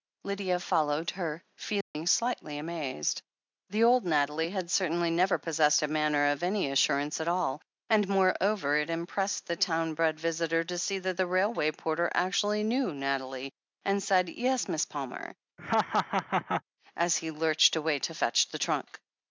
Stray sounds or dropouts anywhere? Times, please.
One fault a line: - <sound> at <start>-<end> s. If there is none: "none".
- dropout at 1.8-1.9 s
- laugh at 15.6-16.6 s